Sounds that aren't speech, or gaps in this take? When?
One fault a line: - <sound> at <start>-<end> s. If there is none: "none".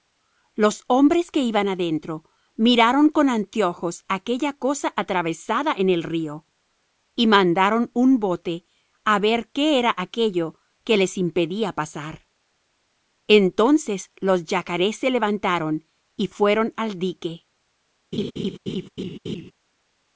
- laugh at 18.1-19.5 s